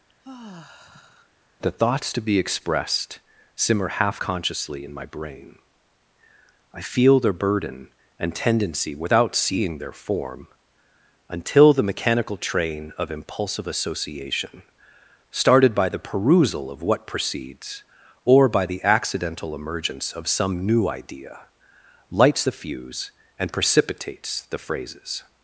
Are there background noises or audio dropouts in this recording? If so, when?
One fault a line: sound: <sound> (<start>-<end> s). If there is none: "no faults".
sound: sigh (0.1-1.3 s)